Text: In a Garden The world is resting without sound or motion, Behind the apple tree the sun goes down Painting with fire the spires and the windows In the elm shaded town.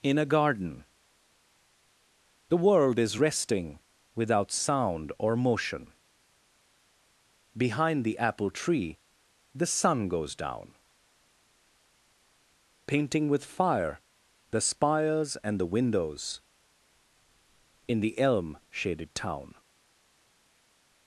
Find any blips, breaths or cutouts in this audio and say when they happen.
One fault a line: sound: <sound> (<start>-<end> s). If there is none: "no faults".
no faults